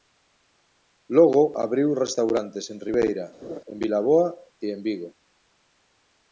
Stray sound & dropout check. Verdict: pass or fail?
fail